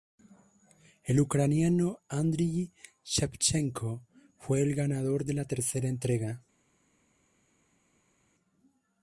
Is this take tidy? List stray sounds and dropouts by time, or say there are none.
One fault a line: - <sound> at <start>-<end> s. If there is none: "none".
none